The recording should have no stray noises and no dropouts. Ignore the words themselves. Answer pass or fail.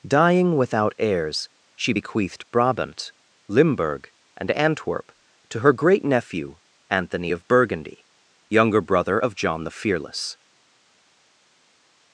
pass